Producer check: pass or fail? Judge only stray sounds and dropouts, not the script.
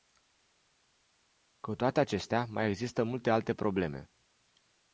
pass